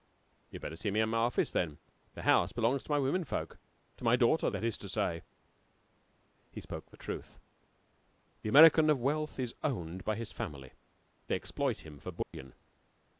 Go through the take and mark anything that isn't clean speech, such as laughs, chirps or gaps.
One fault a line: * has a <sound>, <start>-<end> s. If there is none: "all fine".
* has a dropout, 12.2-12.3 s